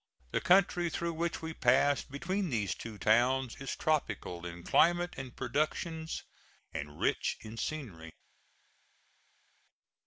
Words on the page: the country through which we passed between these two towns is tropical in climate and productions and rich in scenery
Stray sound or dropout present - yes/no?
no